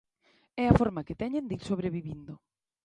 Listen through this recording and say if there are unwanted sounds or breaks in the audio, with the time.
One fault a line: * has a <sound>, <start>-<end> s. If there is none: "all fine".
all fine